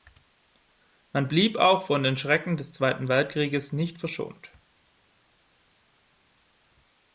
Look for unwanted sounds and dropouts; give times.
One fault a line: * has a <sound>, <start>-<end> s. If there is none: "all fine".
all fine